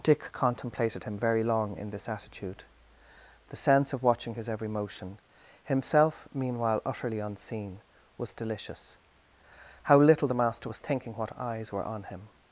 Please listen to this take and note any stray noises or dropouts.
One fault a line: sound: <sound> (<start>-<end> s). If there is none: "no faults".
no faults